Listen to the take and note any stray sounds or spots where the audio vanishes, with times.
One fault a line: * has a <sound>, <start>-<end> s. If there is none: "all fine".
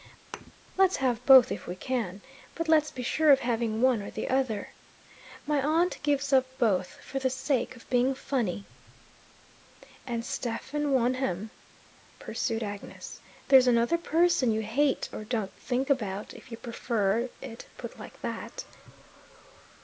* has a thud, 0.3-0.5 s